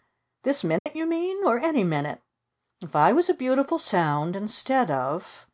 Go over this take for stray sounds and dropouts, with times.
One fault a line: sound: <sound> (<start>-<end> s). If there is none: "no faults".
sound: dropout (0.8-0.9 s)